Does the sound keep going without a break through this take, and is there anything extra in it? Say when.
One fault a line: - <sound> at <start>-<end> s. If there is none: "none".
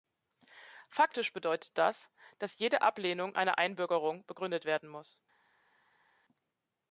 none